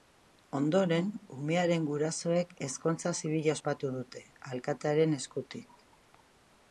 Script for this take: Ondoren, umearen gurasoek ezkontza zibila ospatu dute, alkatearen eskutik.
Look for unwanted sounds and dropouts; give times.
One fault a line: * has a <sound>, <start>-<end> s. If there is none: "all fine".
all fine